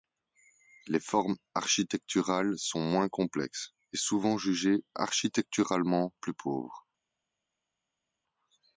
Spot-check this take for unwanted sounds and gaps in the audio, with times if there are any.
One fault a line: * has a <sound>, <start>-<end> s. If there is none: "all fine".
all fine